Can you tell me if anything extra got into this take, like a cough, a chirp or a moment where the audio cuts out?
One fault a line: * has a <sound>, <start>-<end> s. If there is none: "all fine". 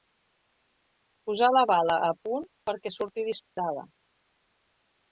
* has a dropout, 3.4-3.6 s